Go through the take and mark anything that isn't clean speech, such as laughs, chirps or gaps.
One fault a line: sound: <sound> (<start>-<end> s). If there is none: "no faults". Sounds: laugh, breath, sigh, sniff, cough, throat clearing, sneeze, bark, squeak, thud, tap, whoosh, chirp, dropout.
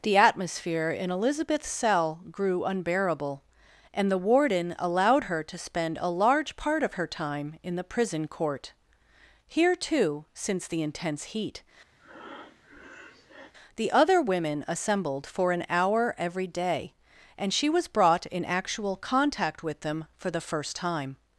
sound: breath (12.0-13.5 s)